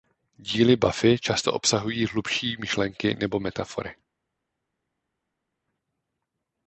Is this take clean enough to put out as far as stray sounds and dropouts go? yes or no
yes